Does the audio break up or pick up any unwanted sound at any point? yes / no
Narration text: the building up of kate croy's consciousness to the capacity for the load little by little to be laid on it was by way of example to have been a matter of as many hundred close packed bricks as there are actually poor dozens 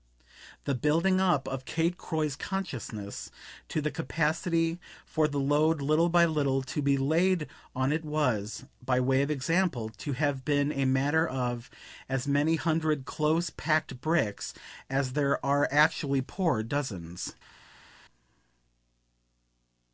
no